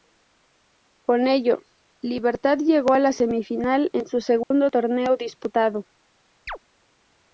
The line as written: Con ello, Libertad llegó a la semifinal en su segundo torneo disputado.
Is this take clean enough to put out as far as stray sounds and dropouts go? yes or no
no